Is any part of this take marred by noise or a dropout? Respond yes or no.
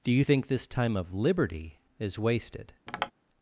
yes